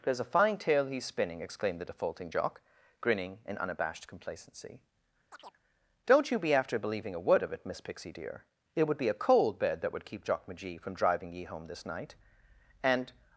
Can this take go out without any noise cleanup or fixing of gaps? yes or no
no